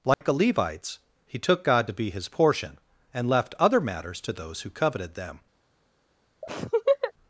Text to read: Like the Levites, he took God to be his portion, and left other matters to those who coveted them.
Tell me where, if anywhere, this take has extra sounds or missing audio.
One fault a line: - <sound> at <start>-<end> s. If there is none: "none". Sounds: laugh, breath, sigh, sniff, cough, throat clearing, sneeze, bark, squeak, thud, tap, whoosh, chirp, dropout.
- dropout at 0.1-0.2 s
- laugh at 6.4-7.1 s